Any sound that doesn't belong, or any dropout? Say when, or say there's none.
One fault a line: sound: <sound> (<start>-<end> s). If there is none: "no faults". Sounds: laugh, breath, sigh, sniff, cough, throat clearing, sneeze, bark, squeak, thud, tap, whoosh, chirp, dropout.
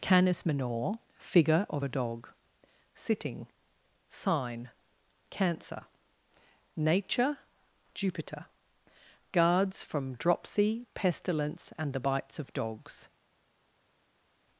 no faults